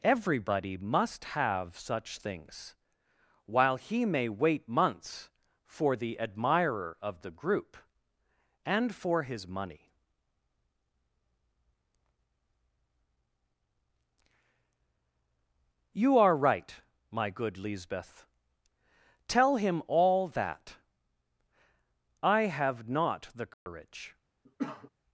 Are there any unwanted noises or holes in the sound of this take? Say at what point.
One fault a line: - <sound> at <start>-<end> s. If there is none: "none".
- dropout at 23.5-23.7 s
- cough at 24.4-24.9 s